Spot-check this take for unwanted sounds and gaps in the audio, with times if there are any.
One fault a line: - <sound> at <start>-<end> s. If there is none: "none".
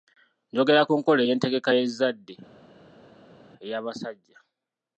none